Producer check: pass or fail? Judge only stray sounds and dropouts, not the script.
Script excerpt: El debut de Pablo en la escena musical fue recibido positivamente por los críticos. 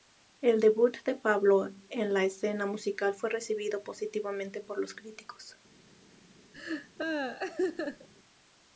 fail